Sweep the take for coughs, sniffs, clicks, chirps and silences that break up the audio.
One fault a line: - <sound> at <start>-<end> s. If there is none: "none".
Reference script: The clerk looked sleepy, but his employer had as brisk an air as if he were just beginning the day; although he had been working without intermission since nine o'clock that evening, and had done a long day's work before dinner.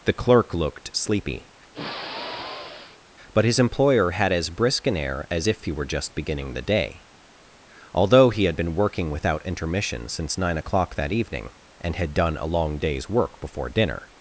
- sigh at 1.7-3.0 s